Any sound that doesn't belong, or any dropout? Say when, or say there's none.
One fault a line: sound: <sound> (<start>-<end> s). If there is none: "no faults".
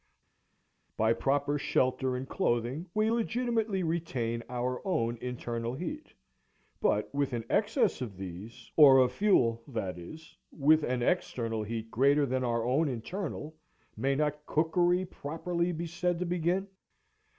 no faults